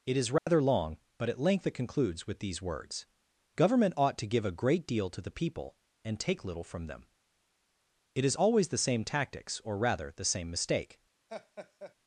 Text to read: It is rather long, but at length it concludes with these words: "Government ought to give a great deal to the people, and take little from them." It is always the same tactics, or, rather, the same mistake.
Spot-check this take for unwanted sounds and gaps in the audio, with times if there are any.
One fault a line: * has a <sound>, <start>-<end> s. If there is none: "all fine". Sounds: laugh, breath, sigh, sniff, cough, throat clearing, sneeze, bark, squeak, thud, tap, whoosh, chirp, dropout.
* has a dropout, 0.4-0.5 s
* has a laugh, 11.3-11.9 s